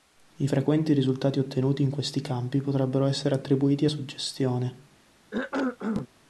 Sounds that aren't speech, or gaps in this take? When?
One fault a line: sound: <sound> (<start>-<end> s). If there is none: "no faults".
sound: cough (5.3-6.1 s)